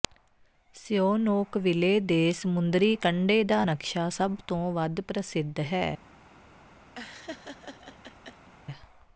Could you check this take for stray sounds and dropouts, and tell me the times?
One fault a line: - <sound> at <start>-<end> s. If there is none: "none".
- laugh at 7.0-8.5 s